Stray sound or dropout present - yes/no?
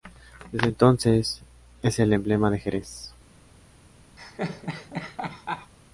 yes